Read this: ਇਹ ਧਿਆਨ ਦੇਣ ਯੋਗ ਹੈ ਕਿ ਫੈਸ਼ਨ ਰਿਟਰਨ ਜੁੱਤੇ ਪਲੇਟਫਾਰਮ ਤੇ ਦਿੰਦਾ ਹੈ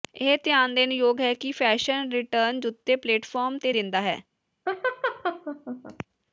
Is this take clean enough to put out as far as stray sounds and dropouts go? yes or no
no